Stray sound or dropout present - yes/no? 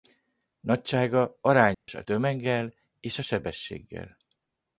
yes